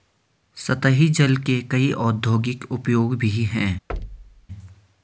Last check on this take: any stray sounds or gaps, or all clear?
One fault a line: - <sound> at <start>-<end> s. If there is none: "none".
- thud at 3.9-4.5 s